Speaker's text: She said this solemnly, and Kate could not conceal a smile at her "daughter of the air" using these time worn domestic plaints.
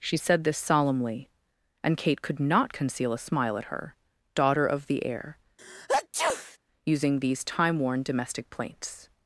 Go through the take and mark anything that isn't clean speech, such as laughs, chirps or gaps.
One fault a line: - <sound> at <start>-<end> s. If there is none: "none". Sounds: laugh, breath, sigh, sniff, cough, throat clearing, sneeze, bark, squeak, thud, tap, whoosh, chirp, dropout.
- sneeze at 5.6-6.6 s